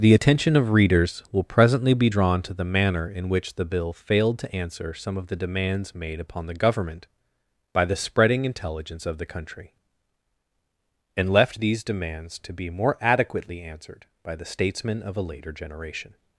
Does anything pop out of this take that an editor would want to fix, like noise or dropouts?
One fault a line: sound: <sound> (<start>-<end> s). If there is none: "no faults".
no faults